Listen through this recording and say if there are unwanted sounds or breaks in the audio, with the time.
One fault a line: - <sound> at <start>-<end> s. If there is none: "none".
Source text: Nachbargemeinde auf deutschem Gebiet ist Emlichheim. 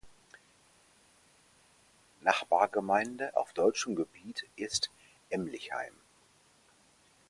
none